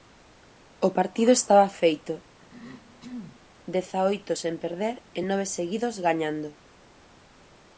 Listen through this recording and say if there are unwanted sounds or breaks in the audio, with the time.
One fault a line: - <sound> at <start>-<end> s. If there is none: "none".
- throat clearing at 2.4-3.5 s